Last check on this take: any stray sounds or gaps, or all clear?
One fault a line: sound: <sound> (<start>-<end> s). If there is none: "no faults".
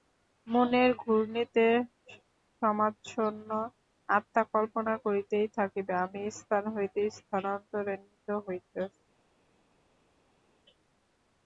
no faults